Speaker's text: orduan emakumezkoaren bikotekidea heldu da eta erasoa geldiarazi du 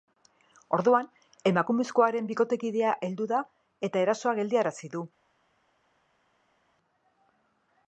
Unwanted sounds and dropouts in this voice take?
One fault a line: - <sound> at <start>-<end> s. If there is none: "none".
none